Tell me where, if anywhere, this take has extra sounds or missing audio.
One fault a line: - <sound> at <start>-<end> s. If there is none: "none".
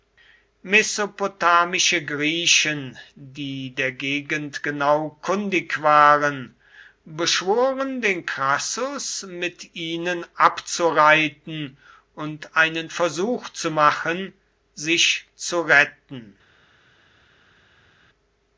none